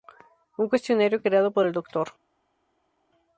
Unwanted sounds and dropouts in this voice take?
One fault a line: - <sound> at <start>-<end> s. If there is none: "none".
none